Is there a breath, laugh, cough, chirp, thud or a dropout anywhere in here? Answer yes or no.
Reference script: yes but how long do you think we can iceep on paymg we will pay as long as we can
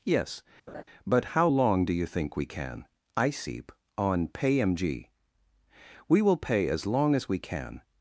yes